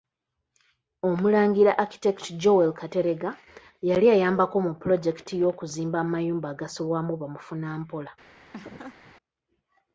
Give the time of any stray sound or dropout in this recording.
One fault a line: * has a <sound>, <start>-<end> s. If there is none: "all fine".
* has a laugh, 8.5-9.1 s